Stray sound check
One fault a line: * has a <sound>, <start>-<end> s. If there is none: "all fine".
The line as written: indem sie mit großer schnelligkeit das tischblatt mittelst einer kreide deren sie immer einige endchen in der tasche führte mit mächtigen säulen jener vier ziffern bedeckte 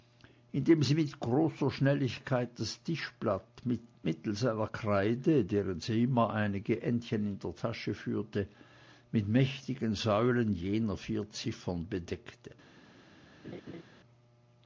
* has a laugh, 13.4-13.8 s